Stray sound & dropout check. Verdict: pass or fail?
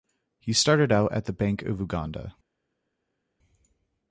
pass